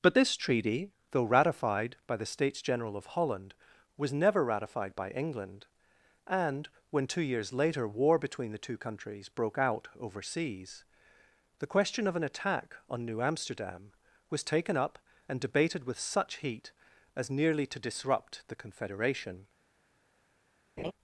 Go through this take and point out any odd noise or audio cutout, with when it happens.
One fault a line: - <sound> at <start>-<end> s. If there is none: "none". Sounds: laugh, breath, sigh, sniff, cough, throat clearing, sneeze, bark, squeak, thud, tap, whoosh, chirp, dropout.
- laugh at 20.8-20.9 s